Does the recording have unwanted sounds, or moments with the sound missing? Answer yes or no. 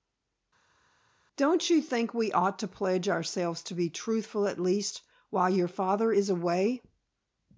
no